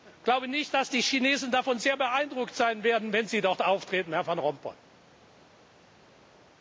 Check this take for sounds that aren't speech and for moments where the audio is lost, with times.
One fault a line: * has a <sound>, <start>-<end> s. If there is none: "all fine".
all fine